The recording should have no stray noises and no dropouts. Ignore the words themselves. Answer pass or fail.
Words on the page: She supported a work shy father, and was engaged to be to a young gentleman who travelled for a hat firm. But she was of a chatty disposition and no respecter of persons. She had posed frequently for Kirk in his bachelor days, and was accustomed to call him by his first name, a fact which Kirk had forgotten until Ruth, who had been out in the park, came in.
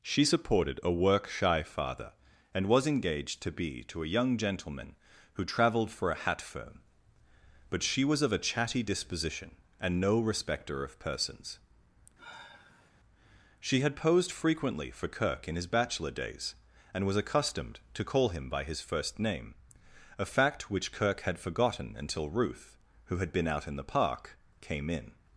fail